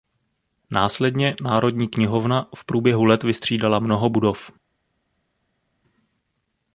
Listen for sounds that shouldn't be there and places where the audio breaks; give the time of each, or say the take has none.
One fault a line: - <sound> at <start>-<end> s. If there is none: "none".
none